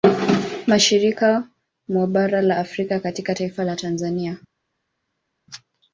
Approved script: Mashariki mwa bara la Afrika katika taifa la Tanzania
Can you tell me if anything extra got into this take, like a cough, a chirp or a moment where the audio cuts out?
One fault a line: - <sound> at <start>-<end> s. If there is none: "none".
none